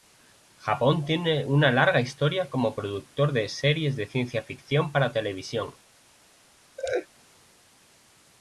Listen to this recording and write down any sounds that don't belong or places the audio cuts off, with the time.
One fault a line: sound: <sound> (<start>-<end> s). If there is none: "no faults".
sound: laugh (6.8-7.1 s)